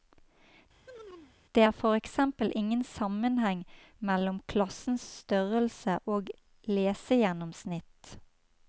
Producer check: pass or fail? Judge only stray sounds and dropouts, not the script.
fail